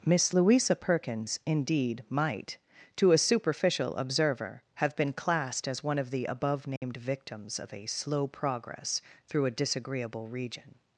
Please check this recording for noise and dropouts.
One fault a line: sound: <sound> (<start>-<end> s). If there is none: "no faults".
sound: dropout (6.8-6.8 s)